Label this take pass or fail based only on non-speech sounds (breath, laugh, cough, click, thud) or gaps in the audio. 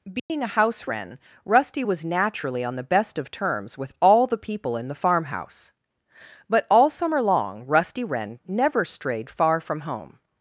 fail